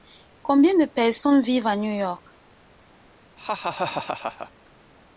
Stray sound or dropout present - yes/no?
yes